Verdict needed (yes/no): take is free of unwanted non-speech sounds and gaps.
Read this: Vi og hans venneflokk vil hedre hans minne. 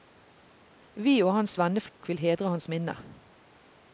no